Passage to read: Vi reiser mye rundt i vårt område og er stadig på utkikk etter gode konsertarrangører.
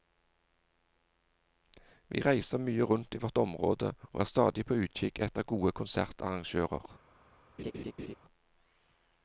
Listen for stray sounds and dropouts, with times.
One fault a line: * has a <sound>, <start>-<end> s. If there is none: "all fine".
* has a laugh, 7.6-8.2 s